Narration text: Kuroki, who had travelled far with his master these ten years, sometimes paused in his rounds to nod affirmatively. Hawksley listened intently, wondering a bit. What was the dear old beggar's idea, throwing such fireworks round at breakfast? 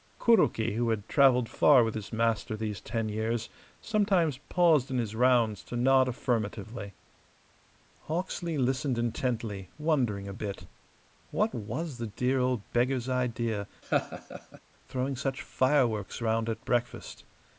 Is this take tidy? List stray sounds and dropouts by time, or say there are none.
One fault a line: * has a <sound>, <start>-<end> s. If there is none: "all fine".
* has a laugh, 13.8-14.6 s